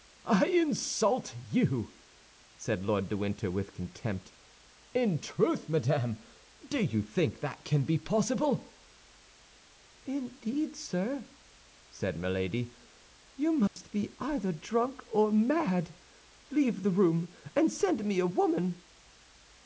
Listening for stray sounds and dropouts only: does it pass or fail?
fail